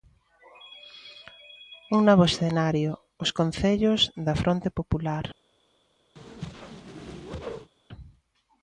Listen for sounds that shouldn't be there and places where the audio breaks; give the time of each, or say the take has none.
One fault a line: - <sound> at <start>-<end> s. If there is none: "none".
- whoosh at 6.2-7.7 s